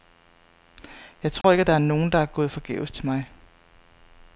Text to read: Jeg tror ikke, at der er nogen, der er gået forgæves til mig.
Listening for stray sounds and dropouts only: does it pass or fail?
fail